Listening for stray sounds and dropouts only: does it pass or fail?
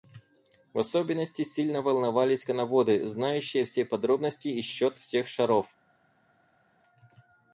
pass